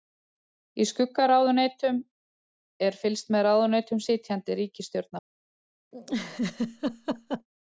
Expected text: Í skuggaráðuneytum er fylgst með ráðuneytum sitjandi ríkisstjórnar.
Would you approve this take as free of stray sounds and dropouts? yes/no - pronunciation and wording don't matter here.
no